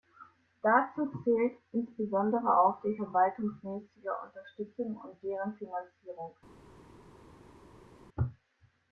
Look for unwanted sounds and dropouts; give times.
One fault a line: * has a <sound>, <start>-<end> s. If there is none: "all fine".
all fine